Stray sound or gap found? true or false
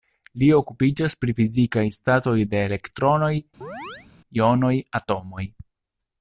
true